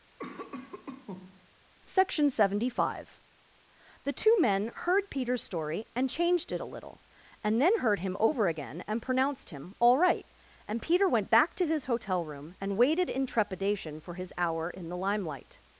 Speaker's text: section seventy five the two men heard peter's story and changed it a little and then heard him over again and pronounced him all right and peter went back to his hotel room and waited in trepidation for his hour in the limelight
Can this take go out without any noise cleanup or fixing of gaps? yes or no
no